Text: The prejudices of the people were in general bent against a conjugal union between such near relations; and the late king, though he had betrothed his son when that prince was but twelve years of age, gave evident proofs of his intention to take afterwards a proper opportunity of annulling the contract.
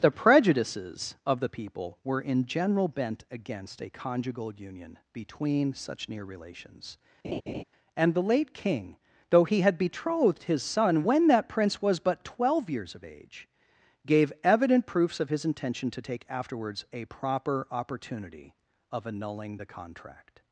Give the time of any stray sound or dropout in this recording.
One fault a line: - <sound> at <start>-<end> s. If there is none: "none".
- laugh at 7.2-7.6 s